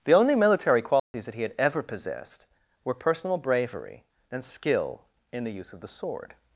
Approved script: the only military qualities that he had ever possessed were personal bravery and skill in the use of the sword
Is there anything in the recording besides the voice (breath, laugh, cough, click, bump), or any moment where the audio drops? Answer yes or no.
yes